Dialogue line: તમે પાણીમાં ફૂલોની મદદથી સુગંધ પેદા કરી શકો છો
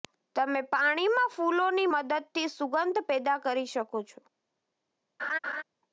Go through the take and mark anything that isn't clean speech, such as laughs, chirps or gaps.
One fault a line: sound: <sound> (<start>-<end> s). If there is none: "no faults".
sound: laugh (5.2-5.6 s)